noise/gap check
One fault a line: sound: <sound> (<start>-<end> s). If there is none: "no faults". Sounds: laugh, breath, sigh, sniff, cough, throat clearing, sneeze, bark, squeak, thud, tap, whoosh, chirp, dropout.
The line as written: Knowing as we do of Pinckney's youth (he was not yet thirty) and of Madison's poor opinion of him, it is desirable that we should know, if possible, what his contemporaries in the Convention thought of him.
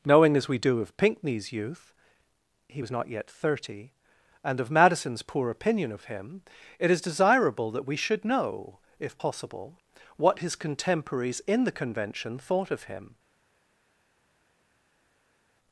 no faults